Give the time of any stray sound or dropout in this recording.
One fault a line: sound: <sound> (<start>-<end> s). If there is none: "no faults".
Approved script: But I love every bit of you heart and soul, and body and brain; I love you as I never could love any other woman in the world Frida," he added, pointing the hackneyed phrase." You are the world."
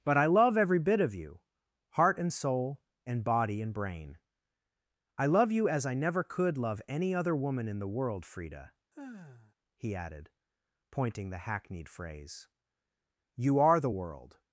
sound: sigh (8.9-9.5 s)